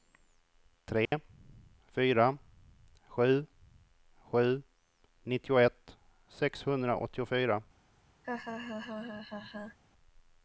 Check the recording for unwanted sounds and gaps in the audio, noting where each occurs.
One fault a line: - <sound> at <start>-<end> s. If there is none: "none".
- dropout at 1.1-1.1 s
- laugh at 8.2-9.8 s